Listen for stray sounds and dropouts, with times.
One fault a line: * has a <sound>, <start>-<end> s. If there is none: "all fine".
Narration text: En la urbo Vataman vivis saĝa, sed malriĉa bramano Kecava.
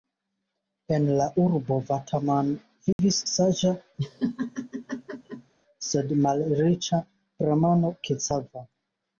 * has a dropout, 2.9-3.0 s
* has a laugh, 4.0-5.5 s